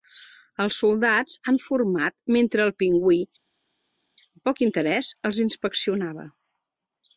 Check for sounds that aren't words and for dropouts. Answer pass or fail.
pass